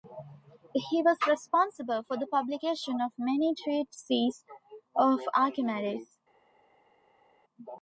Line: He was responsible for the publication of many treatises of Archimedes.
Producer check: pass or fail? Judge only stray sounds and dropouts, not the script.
pass